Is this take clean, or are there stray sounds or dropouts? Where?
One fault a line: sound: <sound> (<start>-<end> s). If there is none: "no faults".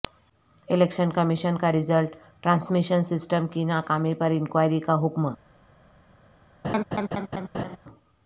sound: laugh (6.6-7.8 s)